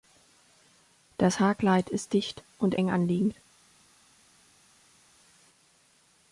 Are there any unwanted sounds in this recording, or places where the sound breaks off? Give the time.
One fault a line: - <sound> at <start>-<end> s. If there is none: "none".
none